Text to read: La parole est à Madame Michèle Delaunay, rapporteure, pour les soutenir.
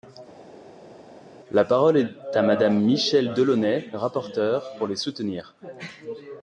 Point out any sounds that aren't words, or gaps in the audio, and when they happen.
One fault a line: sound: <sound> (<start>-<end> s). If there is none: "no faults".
no faults